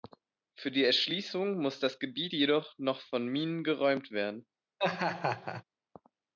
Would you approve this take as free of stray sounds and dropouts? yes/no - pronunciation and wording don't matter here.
no